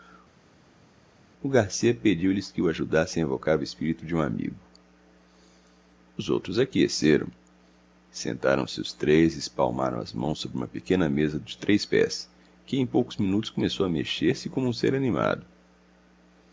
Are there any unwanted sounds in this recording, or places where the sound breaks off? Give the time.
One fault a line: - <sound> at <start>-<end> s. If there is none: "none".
none